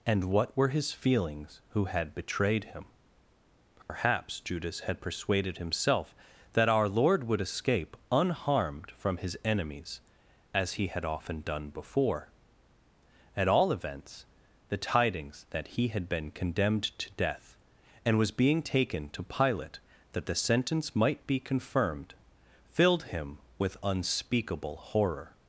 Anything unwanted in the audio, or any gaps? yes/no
yes